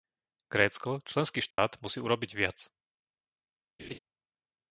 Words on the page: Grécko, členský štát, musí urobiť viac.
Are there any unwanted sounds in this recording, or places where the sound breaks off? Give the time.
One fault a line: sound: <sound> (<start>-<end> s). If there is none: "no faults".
sound: dropout (1.5-1.6 s)
sound: laugh (3.8-4.0 s)